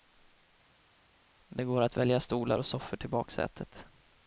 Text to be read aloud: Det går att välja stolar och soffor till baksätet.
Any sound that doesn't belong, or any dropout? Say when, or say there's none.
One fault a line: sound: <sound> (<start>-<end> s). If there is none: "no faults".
no faults